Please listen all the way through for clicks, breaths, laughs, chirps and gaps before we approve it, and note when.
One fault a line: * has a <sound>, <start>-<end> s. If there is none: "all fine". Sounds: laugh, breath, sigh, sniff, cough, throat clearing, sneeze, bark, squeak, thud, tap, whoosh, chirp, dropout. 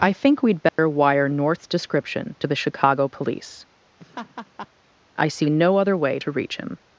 * has a dropout, 0.7-0.8 s
* has a laugh, 4.0-4.7 s